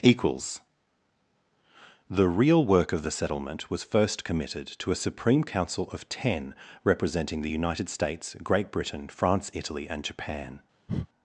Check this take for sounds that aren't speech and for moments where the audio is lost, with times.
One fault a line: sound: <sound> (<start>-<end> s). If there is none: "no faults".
sound: breath (10.9-11.1 s)